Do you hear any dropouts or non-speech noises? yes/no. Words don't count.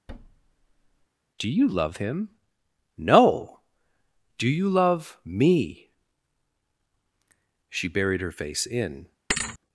yes